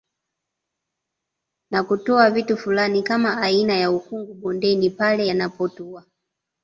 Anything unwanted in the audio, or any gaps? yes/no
no